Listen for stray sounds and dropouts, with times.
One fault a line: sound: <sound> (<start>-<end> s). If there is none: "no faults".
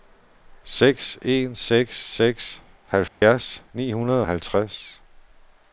sound: dropout (3.1-3.2 s)